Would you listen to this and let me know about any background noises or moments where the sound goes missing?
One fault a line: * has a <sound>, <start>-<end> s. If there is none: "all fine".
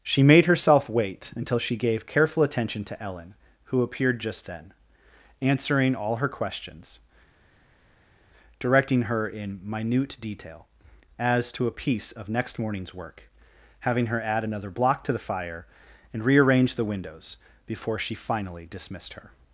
all fine